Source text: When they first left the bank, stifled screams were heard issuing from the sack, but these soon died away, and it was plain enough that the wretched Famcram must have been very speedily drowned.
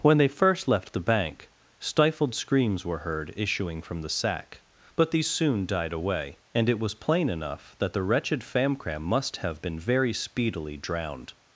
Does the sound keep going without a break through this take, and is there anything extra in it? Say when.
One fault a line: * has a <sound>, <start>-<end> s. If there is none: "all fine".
all fine